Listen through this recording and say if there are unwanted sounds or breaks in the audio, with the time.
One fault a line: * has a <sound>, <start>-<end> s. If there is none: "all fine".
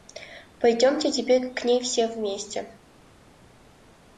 all fine